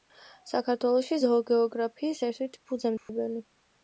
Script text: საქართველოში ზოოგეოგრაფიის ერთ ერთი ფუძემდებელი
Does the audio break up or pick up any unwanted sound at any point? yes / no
yes